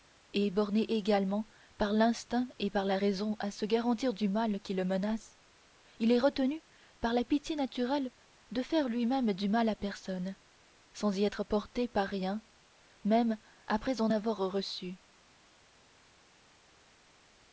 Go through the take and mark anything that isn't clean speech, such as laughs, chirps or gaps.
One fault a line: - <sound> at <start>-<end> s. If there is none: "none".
none